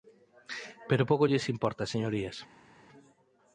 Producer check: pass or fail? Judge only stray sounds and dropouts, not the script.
pass